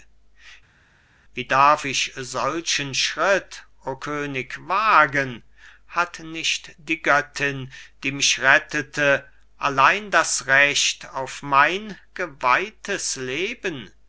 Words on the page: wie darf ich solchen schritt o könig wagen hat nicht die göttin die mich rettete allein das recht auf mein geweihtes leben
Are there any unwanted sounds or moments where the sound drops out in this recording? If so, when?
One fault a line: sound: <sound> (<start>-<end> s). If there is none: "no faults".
no faults